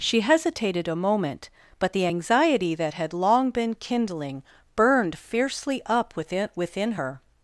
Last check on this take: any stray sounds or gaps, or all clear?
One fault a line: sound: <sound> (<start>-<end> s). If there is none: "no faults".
no faults